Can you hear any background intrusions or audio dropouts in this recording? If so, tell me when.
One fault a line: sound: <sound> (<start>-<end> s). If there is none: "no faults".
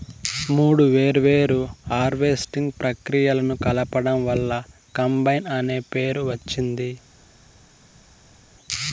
no faults